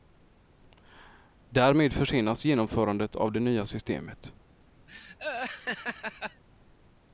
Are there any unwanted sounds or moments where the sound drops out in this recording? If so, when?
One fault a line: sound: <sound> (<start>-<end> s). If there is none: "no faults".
sound: laugh (4.9-6.4 s)